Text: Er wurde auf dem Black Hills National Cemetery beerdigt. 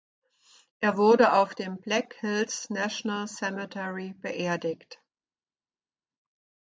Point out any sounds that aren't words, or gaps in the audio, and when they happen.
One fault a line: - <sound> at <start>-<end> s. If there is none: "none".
none